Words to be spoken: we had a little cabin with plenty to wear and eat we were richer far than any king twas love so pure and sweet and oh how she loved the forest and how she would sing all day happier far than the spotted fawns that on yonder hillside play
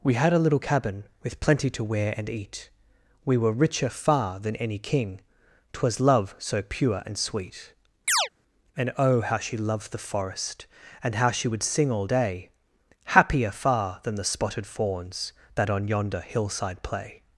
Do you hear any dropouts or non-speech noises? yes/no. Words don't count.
yes